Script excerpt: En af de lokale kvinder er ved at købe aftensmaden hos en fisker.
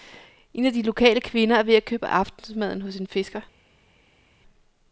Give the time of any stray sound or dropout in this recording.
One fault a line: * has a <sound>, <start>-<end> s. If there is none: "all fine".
all fine